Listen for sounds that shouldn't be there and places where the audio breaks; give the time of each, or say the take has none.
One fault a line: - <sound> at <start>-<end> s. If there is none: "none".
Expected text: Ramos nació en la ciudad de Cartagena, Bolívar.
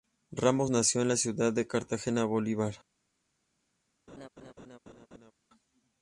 - laugh at 4.1-5.3 s